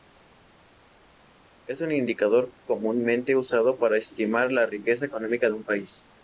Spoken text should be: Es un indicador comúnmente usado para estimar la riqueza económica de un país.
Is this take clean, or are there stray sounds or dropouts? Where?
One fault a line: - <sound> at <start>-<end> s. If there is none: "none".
none